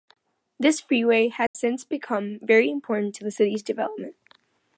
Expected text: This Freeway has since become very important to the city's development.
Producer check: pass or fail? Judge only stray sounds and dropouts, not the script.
fail